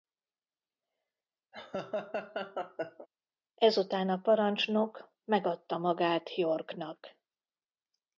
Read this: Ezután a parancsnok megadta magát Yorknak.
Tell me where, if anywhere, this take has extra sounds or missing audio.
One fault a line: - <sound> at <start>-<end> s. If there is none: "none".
- laugh at 1.5-3.1 s